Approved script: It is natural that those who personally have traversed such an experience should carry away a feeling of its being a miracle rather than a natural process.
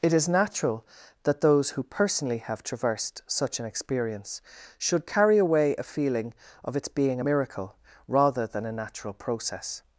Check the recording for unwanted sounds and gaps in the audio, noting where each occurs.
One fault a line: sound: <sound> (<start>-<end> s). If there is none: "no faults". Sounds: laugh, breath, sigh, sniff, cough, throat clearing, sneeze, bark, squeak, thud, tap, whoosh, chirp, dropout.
no faults